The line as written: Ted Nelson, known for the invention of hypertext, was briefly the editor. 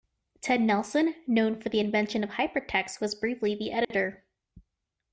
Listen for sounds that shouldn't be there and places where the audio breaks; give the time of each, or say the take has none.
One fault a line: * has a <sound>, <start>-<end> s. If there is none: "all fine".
* has a dropout, 3.8-3.9 s